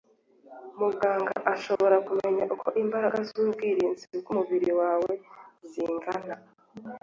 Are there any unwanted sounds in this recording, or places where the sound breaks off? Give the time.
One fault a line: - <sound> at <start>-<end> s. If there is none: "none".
- dropout at 1.8-1.8 s